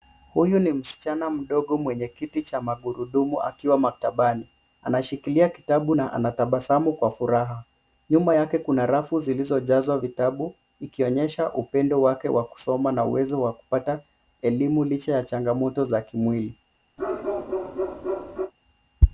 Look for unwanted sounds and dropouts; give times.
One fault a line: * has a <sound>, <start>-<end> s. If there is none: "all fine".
* has a bark, 17.0-18.5 s